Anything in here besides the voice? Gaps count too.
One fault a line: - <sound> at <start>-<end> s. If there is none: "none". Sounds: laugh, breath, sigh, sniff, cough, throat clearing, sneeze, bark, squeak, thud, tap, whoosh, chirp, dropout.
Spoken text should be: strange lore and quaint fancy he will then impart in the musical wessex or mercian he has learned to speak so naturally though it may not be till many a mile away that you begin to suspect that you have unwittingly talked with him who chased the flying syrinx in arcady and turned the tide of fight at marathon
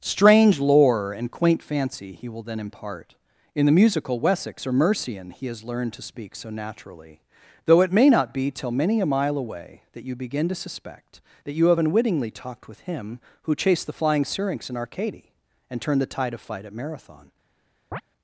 - chirp at 17.9-18.0 s